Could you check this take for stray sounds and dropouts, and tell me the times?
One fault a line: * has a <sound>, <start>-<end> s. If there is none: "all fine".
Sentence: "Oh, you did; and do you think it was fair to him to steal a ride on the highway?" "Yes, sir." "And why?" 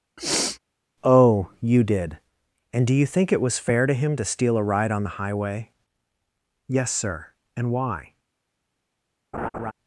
* has a sniff, 0.2-0.6 s
* has a laugh, 9.3-9.7 s